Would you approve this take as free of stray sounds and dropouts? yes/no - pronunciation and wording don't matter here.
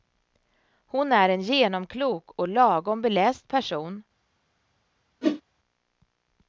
no